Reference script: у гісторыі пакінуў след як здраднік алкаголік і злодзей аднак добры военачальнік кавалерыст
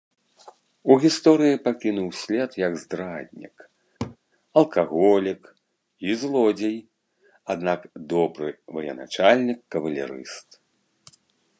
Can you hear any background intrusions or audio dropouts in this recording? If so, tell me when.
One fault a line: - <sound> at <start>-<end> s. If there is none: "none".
- laugh at 4.0-4.2 s